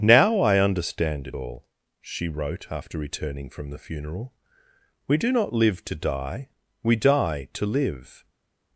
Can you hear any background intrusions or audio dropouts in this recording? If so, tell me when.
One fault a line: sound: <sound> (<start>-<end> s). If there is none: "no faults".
no faults